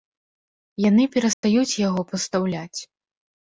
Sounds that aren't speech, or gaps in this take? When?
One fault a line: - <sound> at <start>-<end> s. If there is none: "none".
- dropout at 1.3-1.4 s